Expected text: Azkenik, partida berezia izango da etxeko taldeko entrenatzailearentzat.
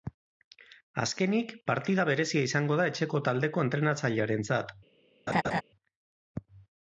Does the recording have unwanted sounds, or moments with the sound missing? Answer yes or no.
yes